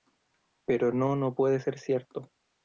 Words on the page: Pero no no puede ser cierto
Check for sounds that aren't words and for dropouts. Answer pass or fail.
pass